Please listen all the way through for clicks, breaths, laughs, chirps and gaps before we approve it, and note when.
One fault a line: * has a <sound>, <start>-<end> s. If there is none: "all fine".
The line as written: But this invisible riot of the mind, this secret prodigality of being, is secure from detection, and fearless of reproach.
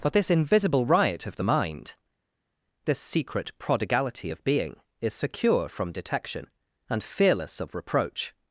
all fine